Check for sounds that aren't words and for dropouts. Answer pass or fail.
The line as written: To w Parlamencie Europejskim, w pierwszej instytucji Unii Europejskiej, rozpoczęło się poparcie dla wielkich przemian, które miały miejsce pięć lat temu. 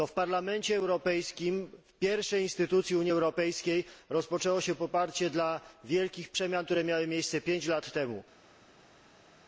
pass